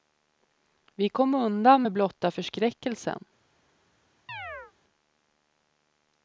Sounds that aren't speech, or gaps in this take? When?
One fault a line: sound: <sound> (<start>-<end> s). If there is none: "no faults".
sound: chirp (4.3-4.7 s)